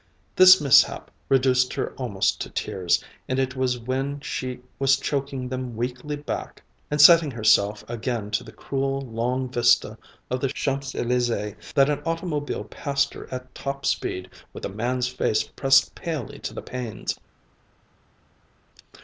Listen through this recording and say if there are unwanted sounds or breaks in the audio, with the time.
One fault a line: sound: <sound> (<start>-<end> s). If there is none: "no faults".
no faults